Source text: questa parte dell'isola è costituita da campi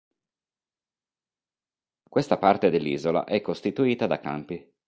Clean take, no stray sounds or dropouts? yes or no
yes